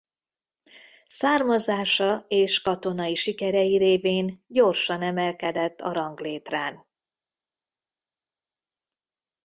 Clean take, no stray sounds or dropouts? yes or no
yes